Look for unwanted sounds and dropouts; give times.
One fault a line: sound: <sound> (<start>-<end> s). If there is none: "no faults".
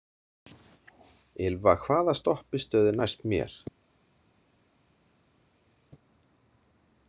no faults